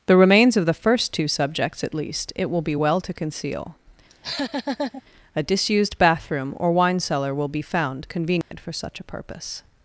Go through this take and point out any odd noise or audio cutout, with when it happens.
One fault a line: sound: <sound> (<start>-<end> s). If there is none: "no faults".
sound: laugh (4.1-5.0 s)
sound: dropout (8.4-8.5 s)